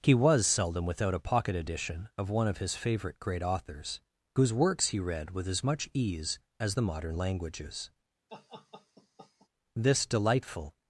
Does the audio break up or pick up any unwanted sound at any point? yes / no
yes